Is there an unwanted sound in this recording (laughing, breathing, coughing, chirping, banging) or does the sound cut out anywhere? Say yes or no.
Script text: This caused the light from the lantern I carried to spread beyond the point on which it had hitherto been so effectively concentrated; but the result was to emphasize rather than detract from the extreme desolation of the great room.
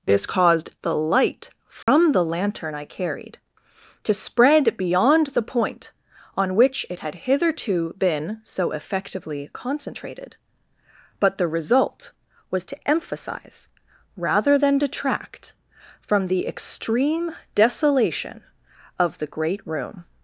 yes